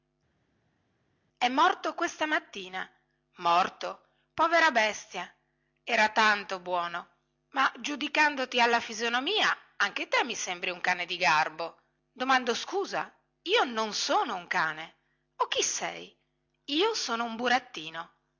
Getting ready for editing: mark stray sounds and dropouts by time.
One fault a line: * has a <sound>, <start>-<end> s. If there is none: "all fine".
all fine